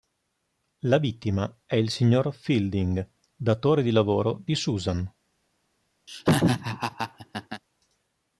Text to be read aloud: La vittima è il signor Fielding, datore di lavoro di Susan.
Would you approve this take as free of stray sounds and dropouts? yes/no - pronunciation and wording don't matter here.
no